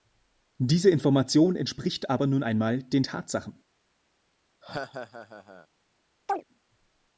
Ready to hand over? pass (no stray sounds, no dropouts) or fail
fail